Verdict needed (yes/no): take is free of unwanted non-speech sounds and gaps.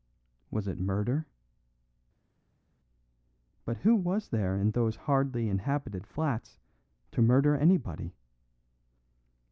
yes